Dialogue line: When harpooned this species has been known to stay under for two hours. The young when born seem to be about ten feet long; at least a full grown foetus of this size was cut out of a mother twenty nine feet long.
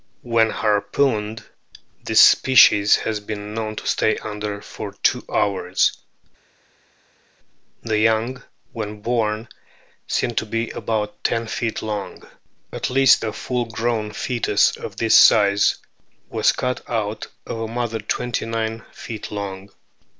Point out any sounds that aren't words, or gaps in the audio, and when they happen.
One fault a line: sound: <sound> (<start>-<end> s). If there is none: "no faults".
no faults